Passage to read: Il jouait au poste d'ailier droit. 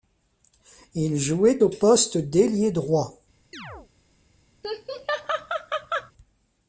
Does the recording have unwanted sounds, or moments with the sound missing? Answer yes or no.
yes